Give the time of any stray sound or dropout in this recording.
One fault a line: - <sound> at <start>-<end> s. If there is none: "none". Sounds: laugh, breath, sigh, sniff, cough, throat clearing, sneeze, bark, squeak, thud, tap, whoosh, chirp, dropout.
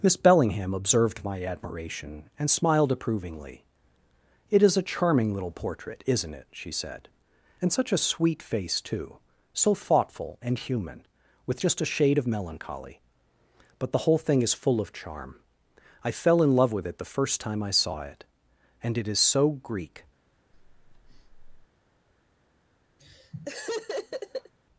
- breath at 20.5-21.7 s
- laugh at 23.0-24.5 s